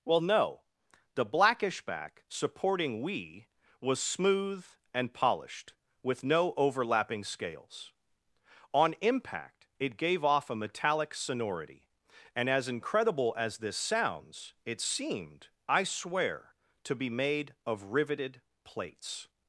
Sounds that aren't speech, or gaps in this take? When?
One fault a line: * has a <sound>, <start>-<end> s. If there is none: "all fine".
all fine